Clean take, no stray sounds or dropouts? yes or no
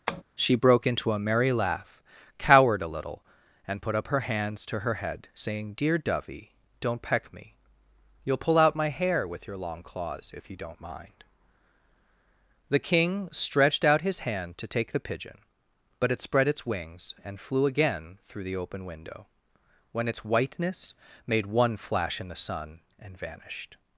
no